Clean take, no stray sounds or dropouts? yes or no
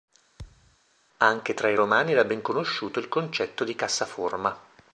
no